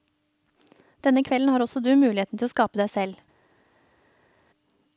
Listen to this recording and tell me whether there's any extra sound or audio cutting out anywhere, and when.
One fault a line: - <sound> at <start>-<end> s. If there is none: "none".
none